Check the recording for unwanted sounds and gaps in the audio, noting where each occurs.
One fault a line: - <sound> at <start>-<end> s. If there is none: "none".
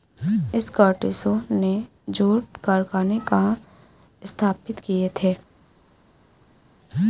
none